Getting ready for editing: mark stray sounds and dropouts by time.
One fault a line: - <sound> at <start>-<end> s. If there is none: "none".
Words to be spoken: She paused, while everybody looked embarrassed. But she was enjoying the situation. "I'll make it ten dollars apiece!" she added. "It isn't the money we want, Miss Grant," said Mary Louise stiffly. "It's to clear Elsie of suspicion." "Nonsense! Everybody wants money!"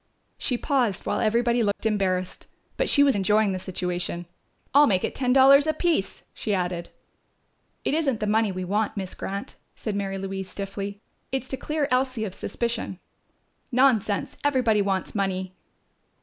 - dropout at 1.7-1.8 s